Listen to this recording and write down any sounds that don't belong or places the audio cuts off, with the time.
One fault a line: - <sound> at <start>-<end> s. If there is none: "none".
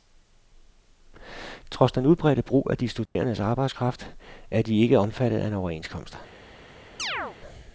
- dropout at 3.1-3.2 s
- chirp at 7.0-7.4 s